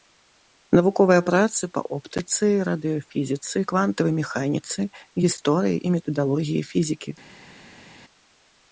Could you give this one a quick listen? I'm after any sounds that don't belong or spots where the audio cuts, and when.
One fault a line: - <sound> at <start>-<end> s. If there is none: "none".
none